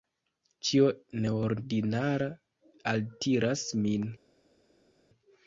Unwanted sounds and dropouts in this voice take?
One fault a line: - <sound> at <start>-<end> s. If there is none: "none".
none